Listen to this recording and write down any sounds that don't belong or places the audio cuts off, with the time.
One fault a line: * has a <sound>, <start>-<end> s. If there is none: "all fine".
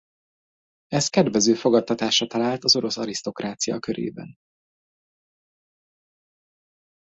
all fine